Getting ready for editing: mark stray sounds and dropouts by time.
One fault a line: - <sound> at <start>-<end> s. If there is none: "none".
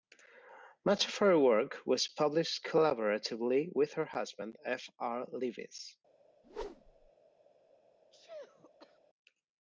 - whoosh at 6.4-7.1 s
- sneeze at 8.1-9.0 s